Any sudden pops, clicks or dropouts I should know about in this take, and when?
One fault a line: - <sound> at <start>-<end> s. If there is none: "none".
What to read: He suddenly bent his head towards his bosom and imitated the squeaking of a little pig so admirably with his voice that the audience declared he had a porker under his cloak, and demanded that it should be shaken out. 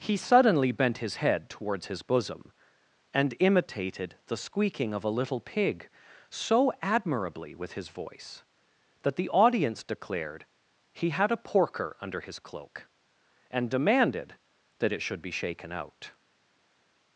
none